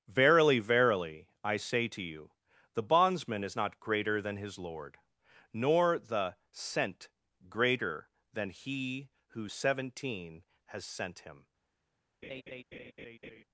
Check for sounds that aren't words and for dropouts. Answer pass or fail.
fail